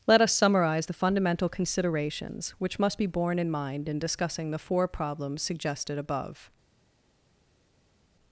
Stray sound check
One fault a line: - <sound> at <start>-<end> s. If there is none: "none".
none